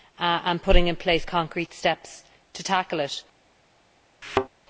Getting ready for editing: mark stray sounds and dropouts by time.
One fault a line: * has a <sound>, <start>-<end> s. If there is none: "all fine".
* has a thud, 4.2-4.5 s